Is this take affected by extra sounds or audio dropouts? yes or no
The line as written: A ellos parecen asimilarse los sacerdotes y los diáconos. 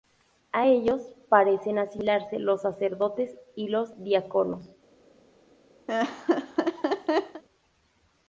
yes